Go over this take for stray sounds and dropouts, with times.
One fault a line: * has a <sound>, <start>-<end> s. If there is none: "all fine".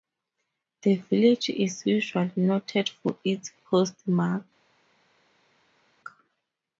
all fine